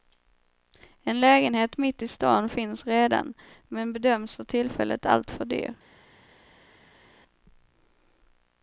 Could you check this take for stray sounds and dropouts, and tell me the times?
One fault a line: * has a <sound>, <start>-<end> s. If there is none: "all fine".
all fine